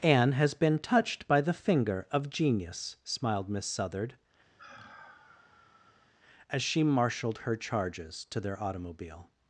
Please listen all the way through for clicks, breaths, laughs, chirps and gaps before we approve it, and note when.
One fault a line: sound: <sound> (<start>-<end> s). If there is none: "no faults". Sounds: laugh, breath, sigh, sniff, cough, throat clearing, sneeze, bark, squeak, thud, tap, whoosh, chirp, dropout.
sound: sigh (4.6-6.1 s)